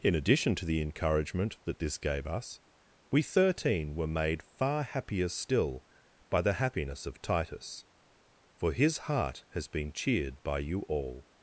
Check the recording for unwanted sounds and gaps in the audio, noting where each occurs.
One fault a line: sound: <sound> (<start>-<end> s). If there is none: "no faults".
no faults